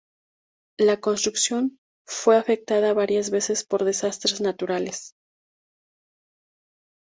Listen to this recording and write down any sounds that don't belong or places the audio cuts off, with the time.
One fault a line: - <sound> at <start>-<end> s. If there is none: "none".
none